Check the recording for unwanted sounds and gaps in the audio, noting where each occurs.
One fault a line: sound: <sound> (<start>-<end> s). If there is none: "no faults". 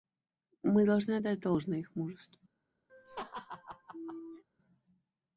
sound: laugh (2.9-4.4 s)